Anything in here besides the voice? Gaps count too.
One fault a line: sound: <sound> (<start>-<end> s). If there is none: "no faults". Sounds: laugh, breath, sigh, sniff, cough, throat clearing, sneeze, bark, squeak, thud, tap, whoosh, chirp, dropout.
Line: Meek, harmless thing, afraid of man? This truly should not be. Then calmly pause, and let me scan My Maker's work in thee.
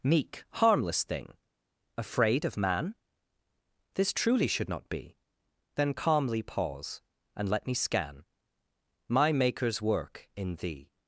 no faults